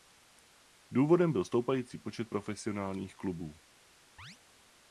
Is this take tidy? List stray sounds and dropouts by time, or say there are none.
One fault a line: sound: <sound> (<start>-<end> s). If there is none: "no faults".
sound: chirp (4.2-4.4 s)